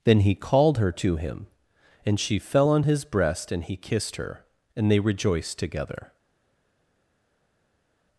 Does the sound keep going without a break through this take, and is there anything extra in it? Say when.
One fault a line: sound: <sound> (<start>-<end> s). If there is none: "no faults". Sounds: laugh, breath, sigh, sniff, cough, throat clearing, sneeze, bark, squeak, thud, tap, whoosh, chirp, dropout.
no faults